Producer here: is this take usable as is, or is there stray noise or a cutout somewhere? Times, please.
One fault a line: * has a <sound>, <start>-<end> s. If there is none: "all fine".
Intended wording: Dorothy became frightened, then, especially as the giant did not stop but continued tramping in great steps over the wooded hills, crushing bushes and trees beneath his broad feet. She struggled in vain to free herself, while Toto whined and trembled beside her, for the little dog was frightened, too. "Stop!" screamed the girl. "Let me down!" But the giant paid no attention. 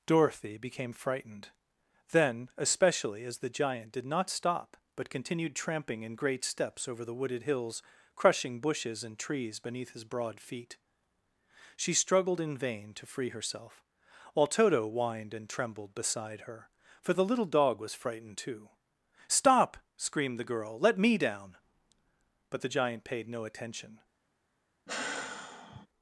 * has a sigh, 24.9-25.9 s